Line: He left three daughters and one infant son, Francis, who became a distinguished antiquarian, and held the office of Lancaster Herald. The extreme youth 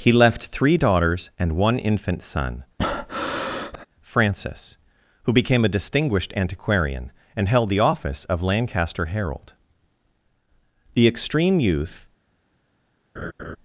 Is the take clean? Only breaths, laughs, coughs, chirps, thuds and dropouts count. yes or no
no